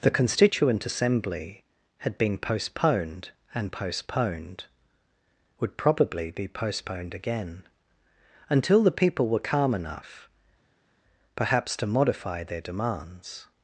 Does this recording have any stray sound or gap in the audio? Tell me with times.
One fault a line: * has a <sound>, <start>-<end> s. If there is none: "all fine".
all fine